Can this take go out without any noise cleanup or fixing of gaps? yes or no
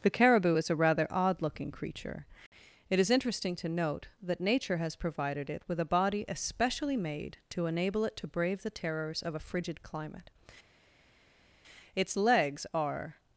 yes